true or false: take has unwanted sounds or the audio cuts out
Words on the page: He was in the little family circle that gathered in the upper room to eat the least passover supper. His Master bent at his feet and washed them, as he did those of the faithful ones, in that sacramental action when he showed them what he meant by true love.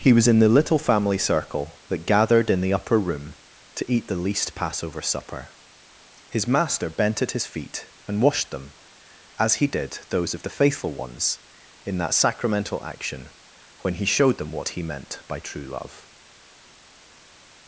false